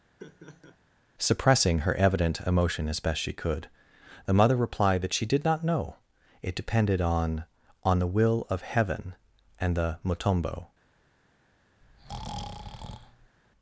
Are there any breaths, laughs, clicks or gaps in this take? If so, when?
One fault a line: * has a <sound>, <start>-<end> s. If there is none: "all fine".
* has a laugh, 0.2-0.8 s
* has a breath, 11.8-13.4 s